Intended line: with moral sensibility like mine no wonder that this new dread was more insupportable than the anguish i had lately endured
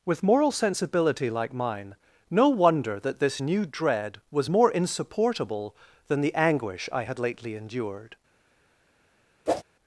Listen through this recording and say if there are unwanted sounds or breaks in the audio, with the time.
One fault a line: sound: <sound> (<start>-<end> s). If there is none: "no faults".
sound: whoosh (9.5-9.6 s)